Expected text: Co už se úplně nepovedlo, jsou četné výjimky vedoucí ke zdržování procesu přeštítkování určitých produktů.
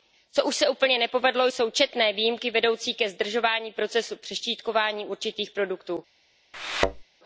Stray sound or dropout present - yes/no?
yes